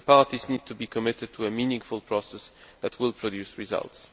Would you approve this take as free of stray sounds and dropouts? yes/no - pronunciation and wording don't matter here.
yes